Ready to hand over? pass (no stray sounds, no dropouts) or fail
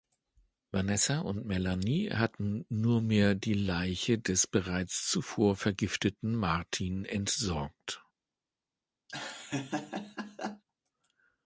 fail